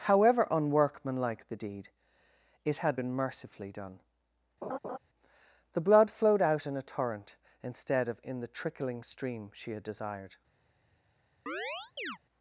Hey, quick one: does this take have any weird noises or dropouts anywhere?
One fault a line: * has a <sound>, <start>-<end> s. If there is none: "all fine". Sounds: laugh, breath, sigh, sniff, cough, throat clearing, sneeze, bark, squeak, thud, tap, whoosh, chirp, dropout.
* has a laugh, 4.6-5.0 s
* has a chirp, 11.5-12.2 s